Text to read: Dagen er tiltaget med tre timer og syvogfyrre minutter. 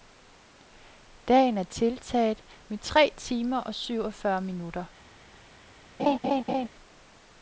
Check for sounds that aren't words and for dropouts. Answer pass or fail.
fail